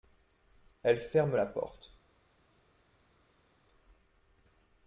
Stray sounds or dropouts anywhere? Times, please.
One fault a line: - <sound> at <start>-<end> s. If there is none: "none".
none